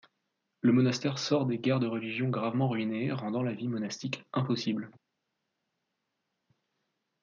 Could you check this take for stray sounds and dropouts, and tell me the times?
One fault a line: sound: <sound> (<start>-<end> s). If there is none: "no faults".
no faults